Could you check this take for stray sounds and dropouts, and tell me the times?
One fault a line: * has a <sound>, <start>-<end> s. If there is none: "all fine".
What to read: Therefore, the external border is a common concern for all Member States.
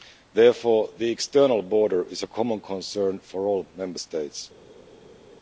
all fine